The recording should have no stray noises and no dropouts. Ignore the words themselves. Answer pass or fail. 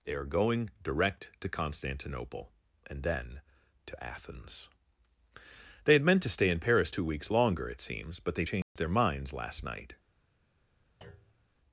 fail